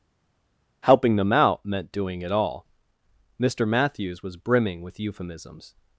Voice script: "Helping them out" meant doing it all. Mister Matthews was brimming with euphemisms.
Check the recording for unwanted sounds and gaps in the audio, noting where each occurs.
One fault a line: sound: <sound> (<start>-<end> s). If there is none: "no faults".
no faults